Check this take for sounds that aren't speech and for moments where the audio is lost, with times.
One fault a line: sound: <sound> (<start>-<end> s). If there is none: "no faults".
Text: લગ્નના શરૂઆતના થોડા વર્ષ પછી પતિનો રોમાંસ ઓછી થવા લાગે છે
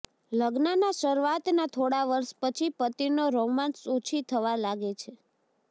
no faults